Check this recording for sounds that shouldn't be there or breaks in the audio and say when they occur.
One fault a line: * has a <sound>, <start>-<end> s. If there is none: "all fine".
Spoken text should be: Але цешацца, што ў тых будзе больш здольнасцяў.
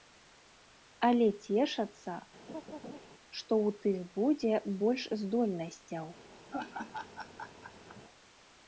* has a laugh, 2.5-3.0 s
* has a laugh, 6.5-8.0 s